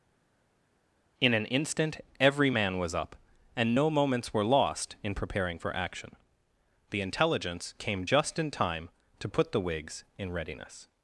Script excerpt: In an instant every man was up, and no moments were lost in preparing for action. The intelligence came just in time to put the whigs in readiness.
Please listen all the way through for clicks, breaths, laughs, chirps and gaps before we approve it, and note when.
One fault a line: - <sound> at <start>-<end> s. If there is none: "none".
none